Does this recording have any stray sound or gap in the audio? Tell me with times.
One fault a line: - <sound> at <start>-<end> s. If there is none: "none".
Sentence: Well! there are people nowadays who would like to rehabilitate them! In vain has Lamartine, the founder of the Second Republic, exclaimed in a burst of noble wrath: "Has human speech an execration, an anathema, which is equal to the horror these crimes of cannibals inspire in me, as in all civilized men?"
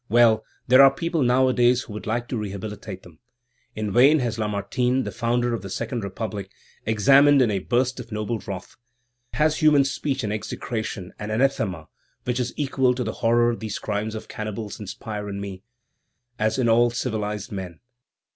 none